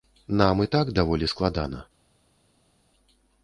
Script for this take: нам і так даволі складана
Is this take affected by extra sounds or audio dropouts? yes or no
no